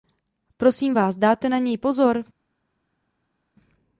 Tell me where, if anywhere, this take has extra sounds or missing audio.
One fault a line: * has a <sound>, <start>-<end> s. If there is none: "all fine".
all fine